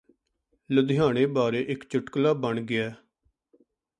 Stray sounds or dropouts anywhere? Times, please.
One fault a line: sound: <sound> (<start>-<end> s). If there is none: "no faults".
no faults